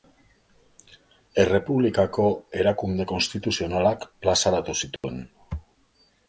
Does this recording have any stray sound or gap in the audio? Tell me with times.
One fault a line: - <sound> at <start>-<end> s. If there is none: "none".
- dropout at 5.0-5.0 s